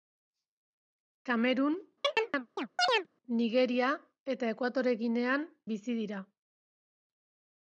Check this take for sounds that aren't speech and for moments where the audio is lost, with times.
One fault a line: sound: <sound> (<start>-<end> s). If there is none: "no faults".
sound: chirp (2.0-3.1 s)